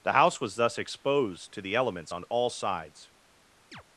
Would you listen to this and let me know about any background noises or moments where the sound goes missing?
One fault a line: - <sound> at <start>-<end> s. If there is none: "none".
- chirp at 3.7-3.8 s